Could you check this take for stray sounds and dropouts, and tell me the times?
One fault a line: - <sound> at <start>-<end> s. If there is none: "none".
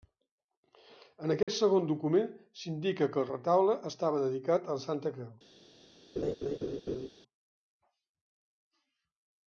- dropout at 1.4-1.5 s
- laugh at 6.2-7.1 s